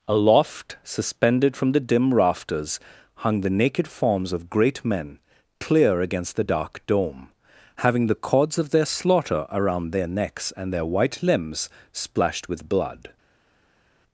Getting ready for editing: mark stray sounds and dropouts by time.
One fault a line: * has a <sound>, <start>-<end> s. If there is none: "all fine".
all fine